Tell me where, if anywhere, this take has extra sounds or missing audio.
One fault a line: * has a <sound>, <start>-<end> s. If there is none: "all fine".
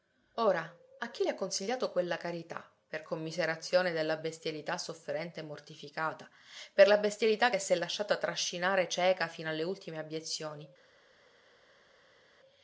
all fine